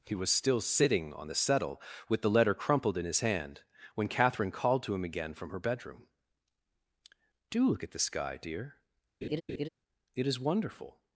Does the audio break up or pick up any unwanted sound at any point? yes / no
yes